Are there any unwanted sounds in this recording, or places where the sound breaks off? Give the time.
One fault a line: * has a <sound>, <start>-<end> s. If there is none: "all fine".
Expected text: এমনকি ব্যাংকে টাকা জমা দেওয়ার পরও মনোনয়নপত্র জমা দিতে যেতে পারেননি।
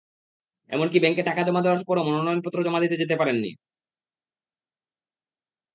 all fine